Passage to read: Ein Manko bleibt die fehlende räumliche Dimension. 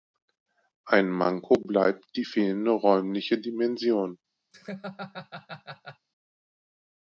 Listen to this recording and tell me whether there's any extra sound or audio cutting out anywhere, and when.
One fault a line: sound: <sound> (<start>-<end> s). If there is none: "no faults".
sound: laugh (4.5-6.1 s)